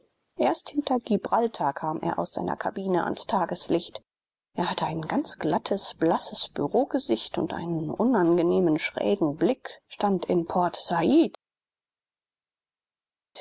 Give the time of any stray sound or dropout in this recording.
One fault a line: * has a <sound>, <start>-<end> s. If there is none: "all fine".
all fine